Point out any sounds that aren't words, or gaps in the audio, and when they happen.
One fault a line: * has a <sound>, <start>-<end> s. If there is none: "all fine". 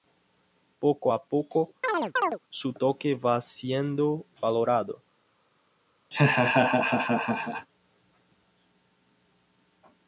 * has a chirp, 1.8-2.4 s
* has a laugh, 6.1-7.7 s